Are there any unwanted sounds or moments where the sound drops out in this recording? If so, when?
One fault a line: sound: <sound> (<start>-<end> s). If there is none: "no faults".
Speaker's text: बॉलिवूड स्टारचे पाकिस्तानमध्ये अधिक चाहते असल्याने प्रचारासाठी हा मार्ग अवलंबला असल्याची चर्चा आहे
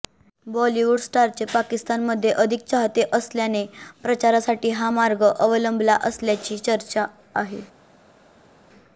no faults